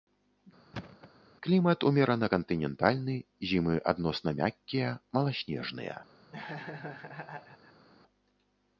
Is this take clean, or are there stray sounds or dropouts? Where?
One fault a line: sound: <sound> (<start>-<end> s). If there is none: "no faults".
sound: thud (0.7-1.1 s)
sound: laugh (6.3-7.9 s)